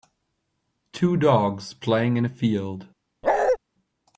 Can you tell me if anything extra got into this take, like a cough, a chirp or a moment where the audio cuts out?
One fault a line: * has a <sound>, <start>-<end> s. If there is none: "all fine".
* has a bark, 3.2-3.6 s